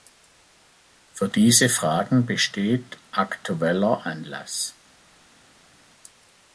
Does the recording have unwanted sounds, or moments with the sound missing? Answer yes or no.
no